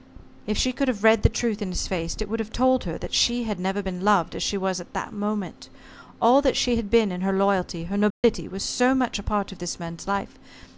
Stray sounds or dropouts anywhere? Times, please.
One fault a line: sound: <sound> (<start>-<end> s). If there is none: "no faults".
sound: dropout (8.1-8.2 s)